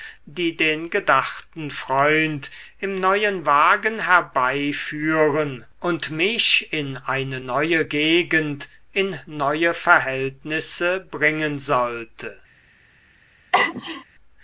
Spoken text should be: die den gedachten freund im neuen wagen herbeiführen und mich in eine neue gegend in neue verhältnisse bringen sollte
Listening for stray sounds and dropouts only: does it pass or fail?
fail